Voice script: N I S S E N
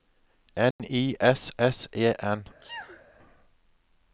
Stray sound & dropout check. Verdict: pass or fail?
fail